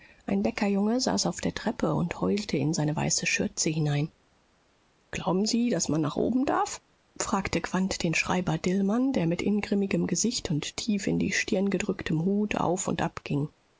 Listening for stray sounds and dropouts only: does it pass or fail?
pass